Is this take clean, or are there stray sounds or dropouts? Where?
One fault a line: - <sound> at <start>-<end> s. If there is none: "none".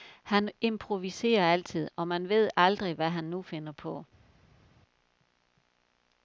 none